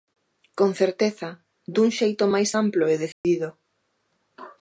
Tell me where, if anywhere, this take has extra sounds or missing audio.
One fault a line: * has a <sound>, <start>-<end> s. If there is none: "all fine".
* has a dropout, 3.1-3.2 s